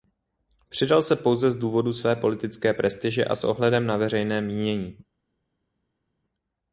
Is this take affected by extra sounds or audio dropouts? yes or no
no